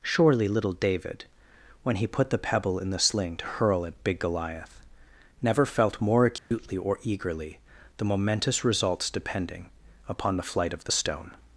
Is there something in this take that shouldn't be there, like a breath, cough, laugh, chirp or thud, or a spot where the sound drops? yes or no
yes